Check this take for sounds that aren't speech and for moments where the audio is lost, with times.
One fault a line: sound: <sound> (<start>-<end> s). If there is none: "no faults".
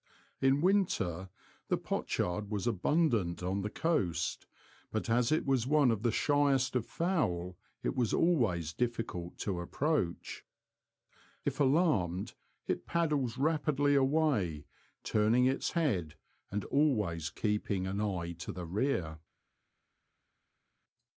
no faults